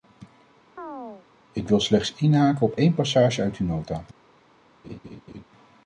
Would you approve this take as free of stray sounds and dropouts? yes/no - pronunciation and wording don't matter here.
no